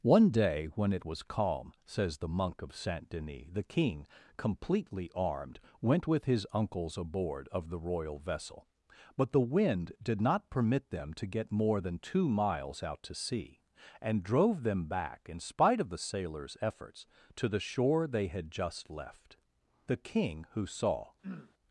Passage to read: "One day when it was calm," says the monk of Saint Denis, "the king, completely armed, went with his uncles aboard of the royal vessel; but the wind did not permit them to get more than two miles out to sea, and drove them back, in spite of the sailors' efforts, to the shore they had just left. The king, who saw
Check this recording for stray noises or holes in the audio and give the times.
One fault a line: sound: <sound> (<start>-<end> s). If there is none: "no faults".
sound: throat clearing (21.2-21.5 s)